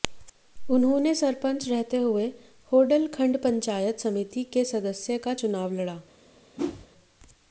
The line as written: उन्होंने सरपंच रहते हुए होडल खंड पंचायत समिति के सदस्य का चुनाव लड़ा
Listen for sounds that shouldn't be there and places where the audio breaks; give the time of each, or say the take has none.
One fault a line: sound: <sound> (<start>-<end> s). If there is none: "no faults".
sound: whoosh (6.6-6.9 s)